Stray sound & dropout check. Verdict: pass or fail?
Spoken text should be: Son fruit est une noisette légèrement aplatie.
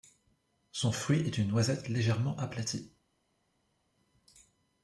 pass